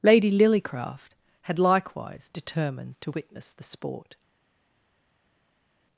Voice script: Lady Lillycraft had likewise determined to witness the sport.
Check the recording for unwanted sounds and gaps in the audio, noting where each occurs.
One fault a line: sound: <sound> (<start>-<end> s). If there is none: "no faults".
no faults